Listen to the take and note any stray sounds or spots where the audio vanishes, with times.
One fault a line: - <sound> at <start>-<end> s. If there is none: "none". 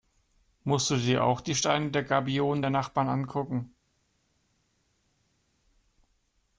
none